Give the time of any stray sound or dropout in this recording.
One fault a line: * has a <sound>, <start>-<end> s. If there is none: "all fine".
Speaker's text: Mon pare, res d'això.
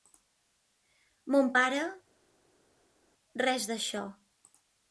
all fine